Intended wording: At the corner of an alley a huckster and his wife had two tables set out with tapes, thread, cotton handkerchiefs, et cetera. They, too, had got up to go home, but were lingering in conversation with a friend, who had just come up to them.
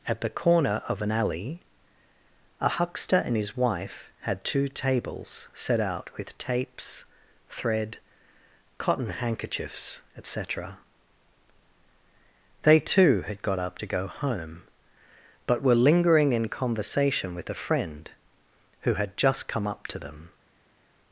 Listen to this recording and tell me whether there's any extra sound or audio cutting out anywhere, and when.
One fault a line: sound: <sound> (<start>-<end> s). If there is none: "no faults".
no faults